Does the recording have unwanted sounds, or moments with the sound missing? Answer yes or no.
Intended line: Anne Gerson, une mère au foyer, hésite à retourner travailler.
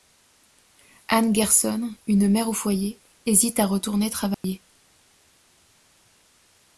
yes